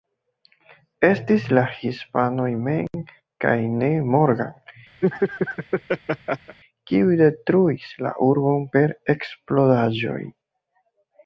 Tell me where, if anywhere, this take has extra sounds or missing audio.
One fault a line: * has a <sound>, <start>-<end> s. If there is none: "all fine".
* has a laugh, 5.0-6.6 s